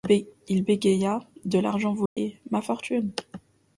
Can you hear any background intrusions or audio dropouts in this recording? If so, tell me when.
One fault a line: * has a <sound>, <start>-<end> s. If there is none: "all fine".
* has a dropout, 2.1-2.2 s